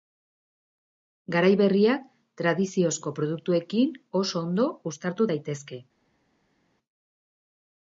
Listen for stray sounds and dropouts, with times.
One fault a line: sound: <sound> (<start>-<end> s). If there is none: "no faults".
no faults